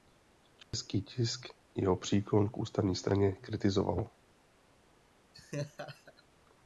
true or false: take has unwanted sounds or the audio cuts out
true